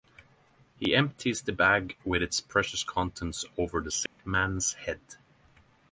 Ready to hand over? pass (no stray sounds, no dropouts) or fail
fail